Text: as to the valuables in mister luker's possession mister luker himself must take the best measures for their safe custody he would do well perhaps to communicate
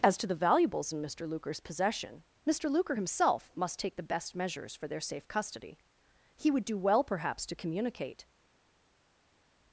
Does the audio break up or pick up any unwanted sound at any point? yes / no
no